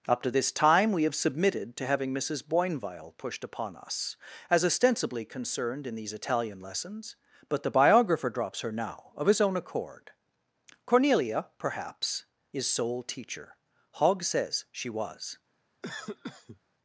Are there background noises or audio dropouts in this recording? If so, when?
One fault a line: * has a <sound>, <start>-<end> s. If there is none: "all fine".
* has a cough, 15.8-16.6 s